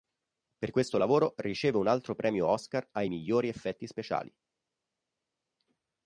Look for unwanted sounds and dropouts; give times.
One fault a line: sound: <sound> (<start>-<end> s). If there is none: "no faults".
no faults